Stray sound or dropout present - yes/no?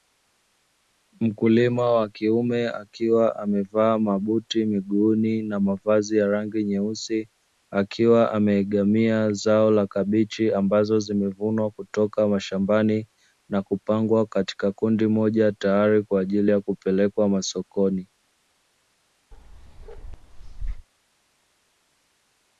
yes